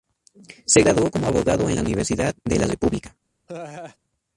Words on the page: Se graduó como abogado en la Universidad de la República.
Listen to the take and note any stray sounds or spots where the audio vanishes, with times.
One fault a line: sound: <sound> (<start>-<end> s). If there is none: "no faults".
sound: laugh (3.5-4.0 s)